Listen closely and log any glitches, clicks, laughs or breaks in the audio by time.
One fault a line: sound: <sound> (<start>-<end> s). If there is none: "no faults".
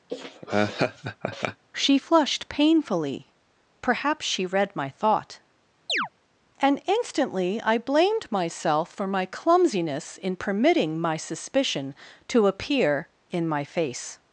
sound: laugh (0.1-1.6 s)
sound: chirp (5.9-6.1 s)